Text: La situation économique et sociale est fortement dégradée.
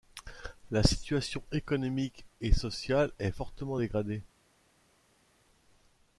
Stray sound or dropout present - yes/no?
no